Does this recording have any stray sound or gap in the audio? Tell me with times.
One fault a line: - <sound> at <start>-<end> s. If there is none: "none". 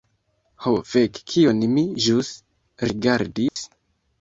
- dropout at 3.5-3.6 s